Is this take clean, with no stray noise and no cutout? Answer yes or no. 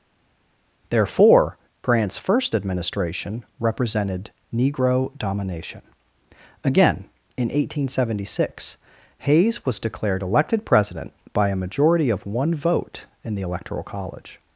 yes